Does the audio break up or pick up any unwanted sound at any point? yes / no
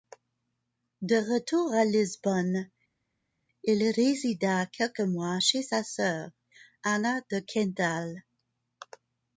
no